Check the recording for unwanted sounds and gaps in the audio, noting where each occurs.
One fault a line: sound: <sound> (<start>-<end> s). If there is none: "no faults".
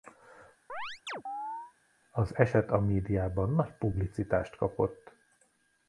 sound: chirp (0.7-1.7 s)